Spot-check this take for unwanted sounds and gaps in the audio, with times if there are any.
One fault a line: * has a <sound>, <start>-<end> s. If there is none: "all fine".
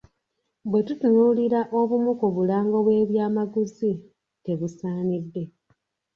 all fine